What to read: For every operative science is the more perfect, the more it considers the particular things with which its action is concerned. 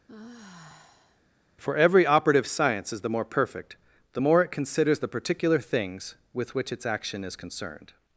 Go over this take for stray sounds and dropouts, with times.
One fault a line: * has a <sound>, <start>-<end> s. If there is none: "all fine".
* has a sigh, 0.1-1.2 s